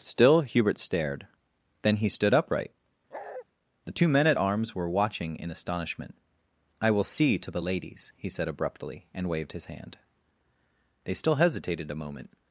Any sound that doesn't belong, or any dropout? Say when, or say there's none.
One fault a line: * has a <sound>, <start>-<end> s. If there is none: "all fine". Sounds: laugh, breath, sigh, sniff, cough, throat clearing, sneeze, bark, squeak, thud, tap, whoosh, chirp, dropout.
* has a bark, 3.1-3.4 s